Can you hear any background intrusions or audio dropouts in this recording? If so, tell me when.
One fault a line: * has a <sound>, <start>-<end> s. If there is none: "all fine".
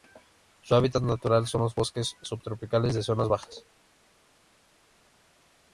all fine